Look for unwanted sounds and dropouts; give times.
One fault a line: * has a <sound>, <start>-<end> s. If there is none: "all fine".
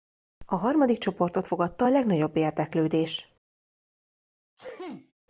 * has a sneeze, 4.6-5.1 s